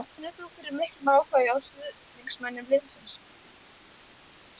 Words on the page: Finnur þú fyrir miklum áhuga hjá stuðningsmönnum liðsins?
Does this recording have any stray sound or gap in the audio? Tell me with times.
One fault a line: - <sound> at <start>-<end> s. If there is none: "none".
none